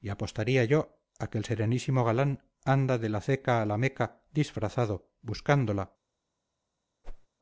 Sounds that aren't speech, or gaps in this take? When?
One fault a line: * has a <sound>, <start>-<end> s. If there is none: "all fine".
* has a whoosh, 7.0-7.3 s